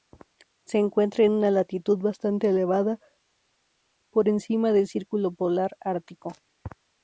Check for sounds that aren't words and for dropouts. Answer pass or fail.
pass